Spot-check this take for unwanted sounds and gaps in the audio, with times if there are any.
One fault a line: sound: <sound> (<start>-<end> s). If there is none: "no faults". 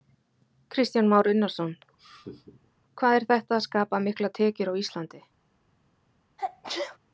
sound: laugh (2.0-2.7 s)
sound: sneeze (6.4-7.0 s)